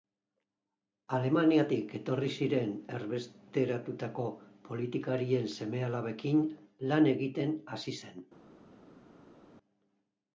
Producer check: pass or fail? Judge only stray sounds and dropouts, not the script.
pass